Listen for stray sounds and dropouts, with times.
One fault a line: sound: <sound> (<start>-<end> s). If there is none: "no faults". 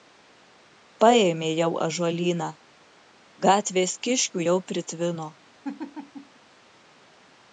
sound: laugh (5.6-6.4 s)